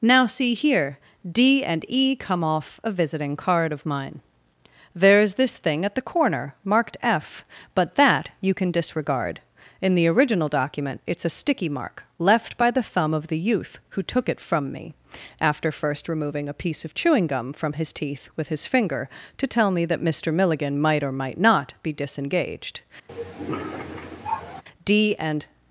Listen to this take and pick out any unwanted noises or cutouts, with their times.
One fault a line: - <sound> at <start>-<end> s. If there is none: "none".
- cough at 23.1-24.6 s